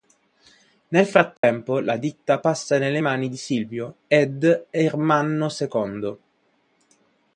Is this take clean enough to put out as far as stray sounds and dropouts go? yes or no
no